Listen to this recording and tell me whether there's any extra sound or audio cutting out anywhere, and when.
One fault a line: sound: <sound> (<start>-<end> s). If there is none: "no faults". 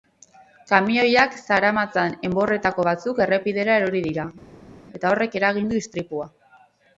no faults